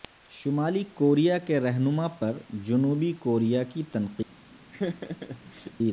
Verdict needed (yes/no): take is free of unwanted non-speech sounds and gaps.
no